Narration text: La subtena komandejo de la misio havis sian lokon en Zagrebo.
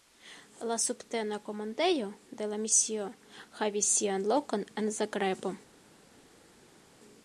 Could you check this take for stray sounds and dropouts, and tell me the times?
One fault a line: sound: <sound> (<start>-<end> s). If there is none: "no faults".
no faults